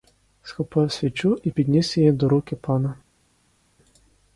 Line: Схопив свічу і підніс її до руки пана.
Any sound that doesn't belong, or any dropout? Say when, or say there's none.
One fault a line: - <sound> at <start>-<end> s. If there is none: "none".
none